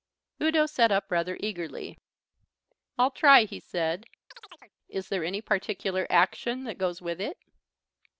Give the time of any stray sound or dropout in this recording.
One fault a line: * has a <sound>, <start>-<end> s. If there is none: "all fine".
* has a chirp, 4.3-4.8 s